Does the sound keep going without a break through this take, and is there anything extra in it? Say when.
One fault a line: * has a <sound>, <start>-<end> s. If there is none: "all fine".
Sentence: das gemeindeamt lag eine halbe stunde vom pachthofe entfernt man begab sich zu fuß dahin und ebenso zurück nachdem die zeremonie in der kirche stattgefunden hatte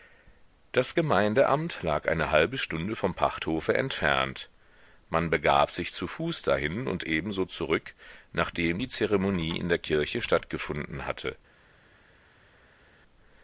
all fine